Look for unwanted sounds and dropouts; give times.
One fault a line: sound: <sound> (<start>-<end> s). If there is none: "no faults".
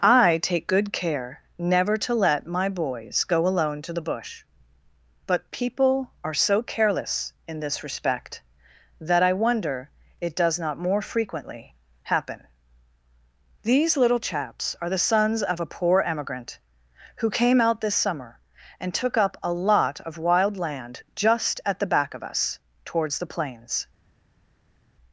no faults